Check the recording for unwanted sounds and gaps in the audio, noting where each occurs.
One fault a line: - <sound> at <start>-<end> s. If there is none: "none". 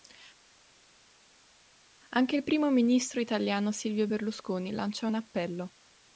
none